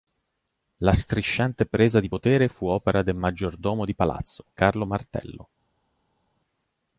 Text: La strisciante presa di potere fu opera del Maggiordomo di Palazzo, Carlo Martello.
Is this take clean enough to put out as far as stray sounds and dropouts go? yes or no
yes